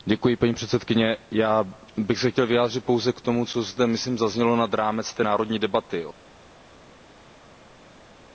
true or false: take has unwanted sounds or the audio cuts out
false